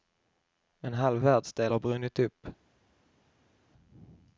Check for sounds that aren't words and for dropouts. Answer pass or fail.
pass